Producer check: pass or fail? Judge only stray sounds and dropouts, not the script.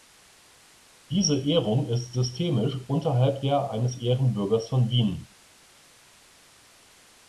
pass